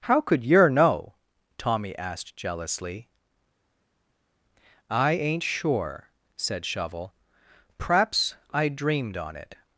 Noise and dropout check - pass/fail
pass